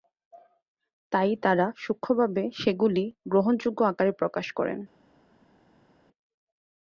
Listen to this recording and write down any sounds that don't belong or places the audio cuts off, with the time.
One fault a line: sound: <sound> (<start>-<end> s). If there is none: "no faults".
no faults